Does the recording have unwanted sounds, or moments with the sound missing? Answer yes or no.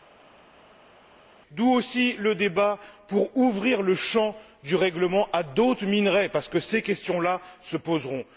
no